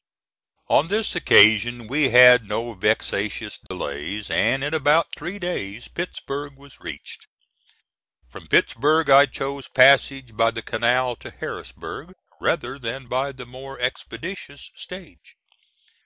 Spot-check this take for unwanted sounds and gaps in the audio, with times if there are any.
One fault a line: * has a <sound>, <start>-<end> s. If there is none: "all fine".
* has a dropout, 3.7-3.7 s